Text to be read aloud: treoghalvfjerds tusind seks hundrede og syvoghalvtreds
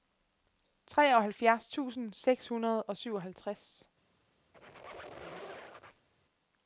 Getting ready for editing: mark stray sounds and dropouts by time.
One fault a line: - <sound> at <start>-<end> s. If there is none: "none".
- squeak at 4.5-6.1 s